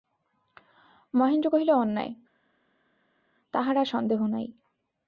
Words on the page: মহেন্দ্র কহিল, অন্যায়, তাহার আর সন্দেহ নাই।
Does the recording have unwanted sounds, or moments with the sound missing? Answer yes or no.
no